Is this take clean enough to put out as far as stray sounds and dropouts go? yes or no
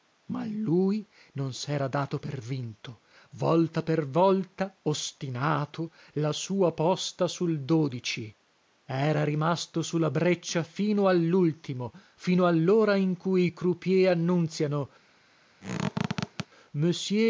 no